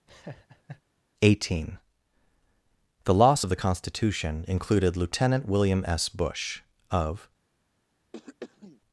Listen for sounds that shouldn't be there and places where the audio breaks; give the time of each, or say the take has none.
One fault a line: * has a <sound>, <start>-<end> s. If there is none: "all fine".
* has a laugh, 0.1-0.8 s
* has a throat clearing, 8.1-8.8 s